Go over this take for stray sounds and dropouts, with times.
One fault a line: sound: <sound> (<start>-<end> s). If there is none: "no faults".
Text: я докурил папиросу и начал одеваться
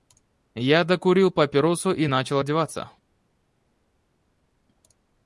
no faults